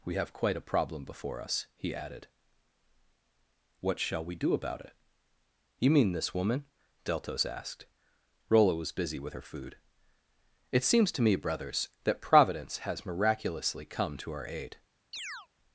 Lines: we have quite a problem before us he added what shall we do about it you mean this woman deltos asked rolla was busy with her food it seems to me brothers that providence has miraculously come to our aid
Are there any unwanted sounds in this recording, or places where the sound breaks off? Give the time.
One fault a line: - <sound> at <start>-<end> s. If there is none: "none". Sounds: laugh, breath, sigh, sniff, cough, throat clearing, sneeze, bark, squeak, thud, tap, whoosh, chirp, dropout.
- chirp at 15.1-15.5 s